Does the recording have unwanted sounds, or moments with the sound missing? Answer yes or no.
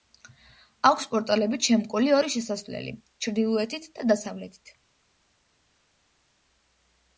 no